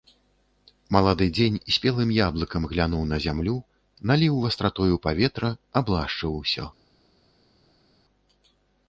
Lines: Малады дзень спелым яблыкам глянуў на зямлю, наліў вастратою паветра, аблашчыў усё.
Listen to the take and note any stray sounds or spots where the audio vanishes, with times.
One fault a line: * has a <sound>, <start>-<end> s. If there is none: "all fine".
all fine